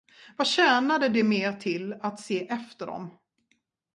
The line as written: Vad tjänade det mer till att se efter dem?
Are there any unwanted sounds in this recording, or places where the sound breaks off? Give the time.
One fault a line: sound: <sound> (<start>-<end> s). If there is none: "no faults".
no faults